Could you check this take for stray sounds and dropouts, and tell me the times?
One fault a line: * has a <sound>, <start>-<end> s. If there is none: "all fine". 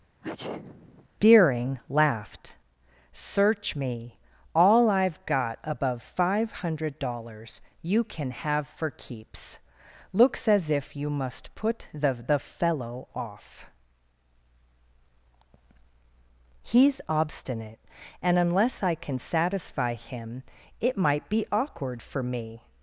* has a sneeze, 0.2-1.1 s